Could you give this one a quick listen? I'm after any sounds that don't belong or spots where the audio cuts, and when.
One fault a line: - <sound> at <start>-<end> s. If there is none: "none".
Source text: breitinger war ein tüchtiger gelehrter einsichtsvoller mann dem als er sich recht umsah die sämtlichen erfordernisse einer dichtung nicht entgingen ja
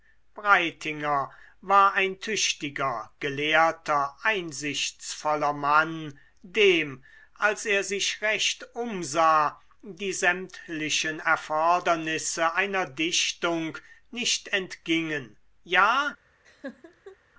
- laugh at 16.4-17.2 s